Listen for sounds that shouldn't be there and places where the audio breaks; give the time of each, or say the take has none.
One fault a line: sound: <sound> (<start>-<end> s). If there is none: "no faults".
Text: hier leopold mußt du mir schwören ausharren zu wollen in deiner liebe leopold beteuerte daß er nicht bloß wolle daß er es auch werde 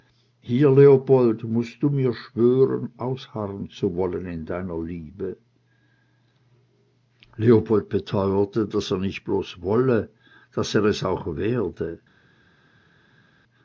no faults